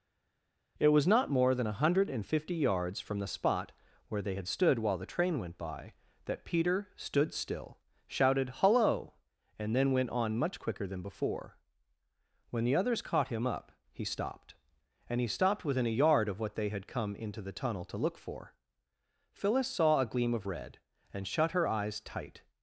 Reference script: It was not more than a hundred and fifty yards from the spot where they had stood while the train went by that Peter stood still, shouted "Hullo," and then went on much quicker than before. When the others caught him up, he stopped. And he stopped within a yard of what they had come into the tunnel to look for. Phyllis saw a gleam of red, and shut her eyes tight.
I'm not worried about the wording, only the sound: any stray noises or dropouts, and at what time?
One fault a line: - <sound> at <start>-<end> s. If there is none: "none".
none